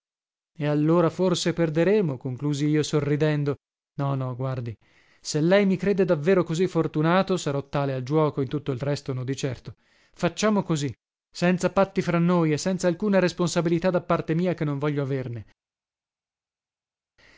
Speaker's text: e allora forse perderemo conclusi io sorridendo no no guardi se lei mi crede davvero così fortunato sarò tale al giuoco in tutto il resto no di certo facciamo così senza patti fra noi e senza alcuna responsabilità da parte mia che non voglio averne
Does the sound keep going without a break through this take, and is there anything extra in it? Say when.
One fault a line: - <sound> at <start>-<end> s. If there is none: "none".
none